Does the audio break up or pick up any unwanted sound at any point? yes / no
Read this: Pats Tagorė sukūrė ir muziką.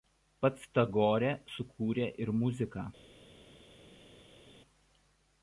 no